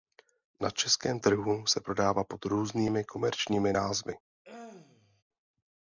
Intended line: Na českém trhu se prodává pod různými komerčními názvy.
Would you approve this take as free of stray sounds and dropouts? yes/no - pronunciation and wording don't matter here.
no